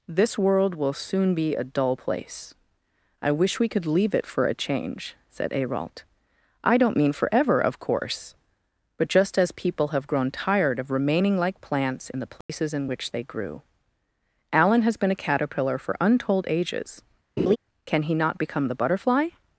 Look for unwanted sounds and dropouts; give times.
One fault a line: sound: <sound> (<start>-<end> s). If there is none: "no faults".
sound: dropout (12.4-12.5 s)
sound: laugh (17.4-17.6 s)